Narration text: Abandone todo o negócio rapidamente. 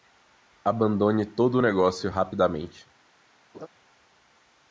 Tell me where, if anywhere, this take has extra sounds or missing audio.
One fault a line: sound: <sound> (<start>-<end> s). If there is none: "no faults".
sound: laugh (3.5-3.7 s)